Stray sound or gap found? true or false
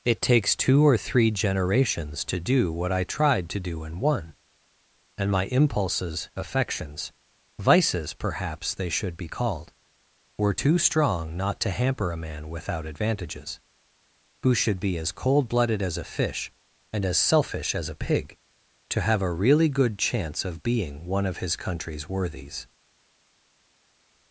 false